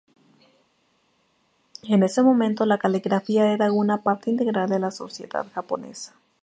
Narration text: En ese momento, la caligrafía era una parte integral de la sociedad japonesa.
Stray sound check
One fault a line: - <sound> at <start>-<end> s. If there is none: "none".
none